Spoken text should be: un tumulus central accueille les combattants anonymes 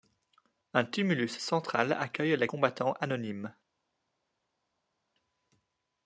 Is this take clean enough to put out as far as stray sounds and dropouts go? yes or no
yes